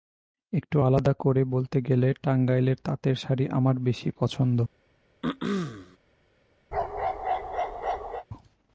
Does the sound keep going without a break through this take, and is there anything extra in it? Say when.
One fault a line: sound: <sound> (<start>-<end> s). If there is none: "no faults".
sound: throat clearing (5.2-6.0 s)
sound: bark (6.7-8.2 s)